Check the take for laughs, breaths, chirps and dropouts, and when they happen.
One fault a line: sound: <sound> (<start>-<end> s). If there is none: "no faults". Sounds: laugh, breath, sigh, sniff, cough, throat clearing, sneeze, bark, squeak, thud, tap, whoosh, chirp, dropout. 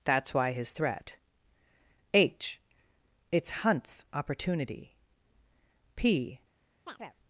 sound: chirp (6.9-7.2 s)